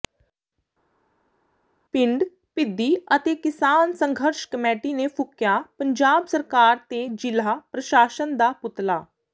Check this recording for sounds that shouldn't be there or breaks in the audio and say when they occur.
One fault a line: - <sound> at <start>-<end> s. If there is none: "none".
none